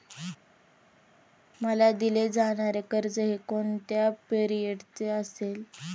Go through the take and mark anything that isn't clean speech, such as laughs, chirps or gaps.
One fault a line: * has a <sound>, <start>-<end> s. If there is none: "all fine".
all fine